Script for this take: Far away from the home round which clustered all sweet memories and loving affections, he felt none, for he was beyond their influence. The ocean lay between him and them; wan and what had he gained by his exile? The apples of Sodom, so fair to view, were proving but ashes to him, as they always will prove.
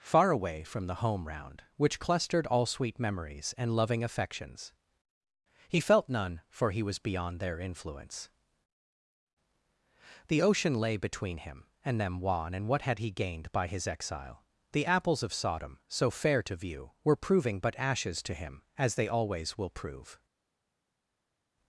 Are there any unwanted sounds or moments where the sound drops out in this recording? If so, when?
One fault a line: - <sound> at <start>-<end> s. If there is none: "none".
none